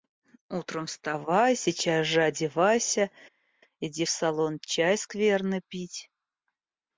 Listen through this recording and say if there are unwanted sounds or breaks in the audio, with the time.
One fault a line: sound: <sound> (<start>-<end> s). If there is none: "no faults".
no faults